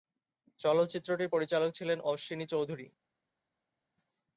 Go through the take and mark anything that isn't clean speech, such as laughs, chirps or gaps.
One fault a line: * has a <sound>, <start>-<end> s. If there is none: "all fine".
all fine